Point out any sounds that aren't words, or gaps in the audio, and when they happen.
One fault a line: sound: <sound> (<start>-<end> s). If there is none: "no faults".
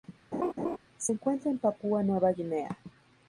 sound: laugh (0.3-0.8 s)